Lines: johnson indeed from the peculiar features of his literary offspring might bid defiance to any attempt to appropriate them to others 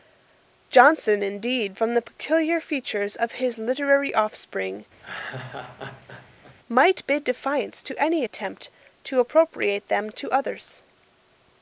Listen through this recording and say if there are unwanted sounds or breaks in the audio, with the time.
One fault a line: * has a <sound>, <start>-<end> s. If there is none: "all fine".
* has a laugh, 5.0-6.6 s